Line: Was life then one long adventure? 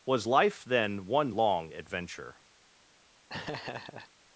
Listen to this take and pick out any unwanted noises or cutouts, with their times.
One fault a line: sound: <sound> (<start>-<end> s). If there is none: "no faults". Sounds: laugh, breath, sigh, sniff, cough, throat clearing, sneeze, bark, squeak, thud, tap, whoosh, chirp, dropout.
sound: laugh (3.3-4.1 s)